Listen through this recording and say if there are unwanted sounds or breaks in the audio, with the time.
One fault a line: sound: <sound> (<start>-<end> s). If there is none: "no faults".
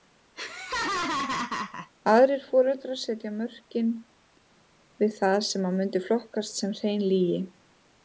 sound: laugh (0.4-1.9 s)